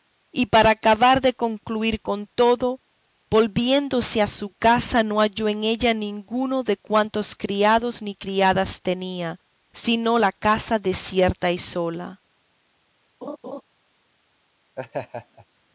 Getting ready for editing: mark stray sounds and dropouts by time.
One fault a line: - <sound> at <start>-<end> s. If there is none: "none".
- laugh at 13.2-13.6 s
- laugh at 14.8-15.5 s